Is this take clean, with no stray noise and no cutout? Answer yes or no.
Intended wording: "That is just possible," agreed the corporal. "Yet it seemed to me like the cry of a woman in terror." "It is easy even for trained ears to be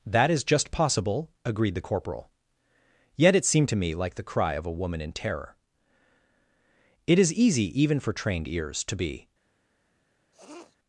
no